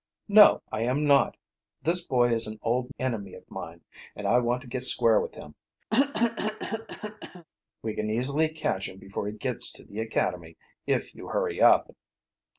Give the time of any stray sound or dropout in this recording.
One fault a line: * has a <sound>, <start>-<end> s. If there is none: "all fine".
* has a cough, 5.9-7.5 s